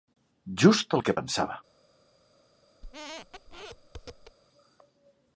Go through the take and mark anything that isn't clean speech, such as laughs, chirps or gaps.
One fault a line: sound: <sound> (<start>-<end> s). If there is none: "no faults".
sound: squeak (2.8-4.4 s)